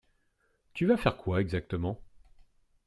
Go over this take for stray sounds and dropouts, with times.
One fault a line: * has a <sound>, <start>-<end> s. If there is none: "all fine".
all fine